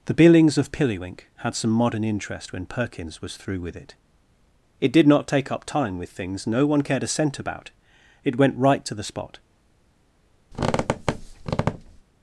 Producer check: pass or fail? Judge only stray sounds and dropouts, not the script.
fail